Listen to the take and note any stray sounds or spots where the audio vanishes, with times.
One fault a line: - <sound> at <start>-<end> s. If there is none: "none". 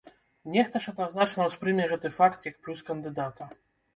none